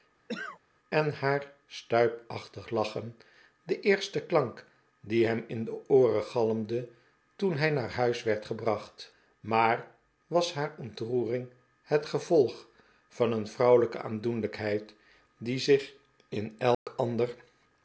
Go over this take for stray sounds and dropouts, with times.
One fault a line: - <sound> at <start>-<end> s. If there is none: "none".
- cough at 0.3-0.6 s
- dropout at 16.7-16.9 s